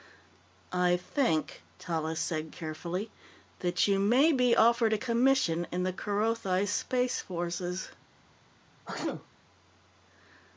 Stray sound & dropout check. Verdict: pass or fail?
fail